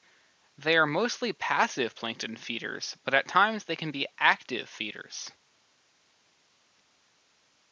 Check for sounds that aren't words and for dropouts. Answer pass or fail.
pass